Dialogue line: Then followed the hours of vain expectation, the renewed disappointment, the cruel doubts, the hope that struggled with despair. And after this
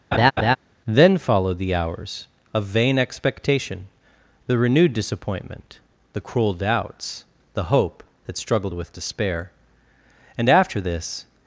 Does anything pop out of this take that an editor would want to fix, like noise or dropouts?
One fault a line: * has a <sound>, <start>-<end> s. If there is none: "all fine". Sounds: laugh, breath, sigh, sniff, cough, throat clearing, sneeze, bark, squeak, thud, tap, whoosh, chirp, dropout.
* has a laugh, 0.1-0.6 s